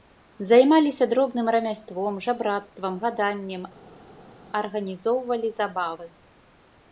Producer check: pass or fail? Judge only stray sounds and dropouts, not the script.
pass